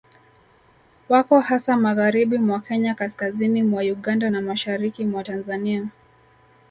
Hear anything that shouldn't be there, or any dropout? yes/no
no